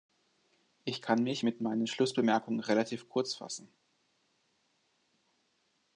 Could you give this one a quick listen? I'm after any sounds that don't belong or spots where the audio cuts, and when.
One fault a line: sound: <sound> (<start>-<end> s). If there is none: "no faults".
no faults